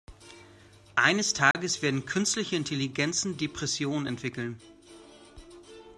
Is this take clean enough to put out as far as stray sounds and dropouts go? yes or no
no